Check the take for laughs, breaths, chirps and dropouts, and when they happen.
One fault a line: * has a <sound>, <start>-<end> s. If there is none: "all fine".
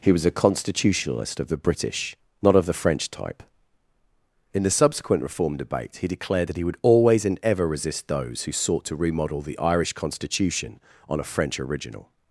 all fine